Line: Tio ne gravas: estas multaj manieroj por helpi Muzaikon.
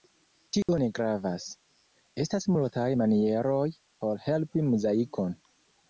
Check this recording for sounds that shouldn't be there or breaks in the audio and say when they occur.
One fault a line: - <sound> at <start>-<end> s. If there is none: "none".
- dropout at 0.6-0.7 s